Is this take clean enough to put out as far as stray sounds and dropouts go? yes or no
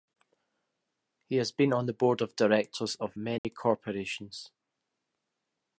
no